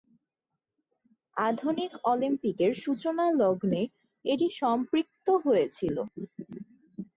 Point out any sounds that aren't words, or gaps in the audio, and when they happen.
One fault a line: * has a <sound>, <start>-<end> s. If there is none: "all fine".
all fine